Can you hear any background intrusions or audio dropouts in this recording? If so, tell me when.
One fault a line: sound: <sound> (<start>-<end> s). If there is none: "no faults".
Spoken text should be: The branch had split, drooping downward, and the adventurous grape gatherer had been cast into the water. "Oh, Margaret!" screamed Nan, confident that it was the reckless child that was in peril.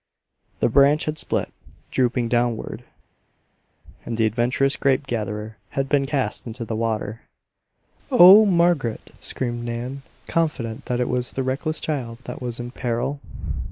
no faults